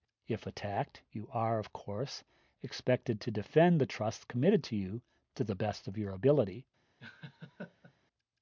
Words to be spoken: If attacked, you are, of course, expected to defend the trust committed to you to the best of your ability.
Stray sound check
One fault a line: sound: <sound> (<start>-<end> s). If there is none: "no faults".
sound: laugh (7.0-7.9 s)